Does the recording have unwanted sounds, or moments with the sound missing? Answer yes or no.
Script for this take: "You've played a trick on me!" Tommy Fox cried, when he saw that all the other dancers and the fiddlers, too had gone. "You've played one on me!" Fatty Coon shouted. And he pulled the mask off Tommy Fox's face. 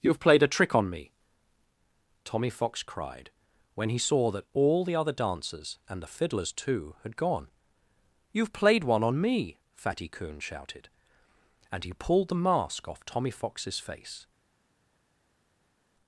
no